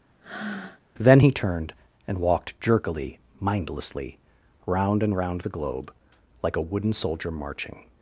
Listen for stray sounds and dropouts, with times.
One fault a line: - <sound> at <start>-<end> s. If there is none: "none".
- breath at 0.2-0.8 s